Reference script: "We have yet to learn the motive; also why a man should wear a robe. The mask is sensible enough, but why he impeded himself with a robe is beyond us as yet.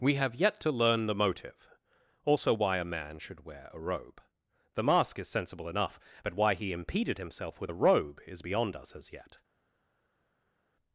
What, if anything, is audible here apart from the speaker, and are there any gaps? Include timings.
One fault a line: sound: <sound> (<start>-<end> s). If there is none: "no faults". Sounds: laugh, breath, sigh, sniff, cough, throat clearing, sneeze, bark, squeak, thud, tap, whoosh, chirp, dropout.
no faults